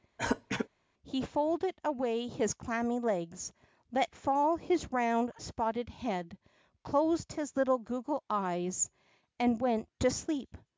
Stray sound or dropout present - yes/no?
yes